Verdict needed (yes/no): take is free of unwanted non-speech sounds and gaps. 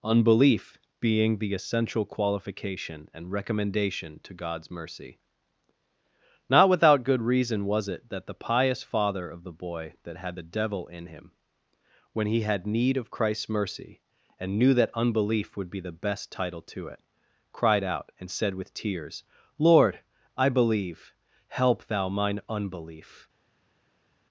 yes